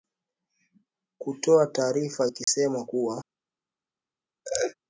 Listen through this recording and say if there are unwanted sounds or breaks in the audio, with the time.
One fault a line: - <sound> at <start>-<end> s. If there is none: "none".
- dropout at 2.4-2.5 s
- laugh at 4.4-4.7 s